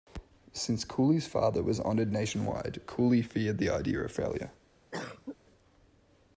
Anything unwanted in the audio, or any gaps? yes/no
yes